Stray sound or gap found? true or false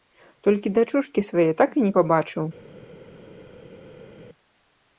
false